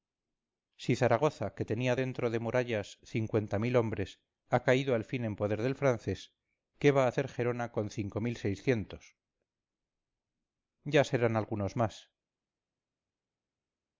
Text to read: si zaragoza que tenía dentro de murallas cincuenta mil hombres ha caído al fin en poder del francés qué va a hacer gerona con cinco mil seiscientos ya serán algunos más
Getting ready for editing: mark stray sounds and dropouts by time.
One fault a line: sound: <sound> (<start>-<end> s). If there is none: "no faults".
no faults